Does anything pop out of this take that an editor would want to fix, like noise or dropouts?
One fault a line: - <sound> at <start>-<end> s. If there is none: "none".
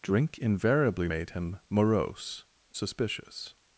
none